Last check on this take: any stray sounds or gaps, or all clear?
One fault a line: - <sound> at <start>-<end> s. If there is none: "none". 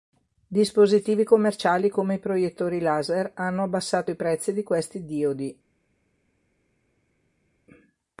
none